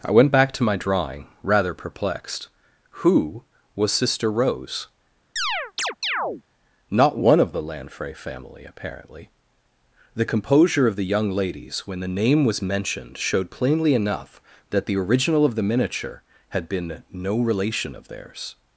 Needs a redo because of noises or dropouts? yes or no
yes